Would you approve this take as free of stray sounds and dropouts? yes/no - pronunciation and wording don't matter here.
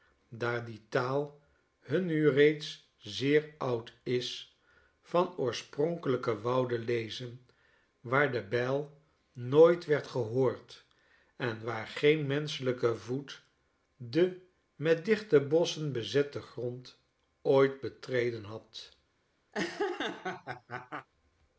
no